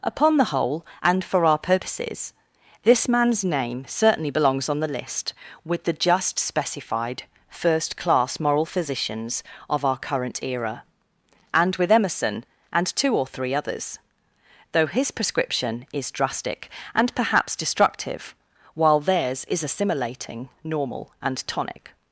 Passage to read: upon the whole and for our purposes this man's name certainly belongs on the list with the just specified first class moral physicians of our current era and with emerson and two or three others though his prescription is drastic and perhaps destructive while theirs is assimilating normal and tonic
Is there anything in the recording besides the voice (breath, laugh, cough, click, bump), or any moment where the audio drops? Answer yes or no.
no